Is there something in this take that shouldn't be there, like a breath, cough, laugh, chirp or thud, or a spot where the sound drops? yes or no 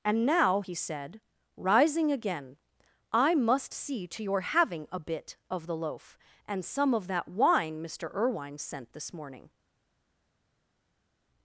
no